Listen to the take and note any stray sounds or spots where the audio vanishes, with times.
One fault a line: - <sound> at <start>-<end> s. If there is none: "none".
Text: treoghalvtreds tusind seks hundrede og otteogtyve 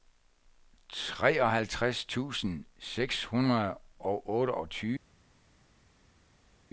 none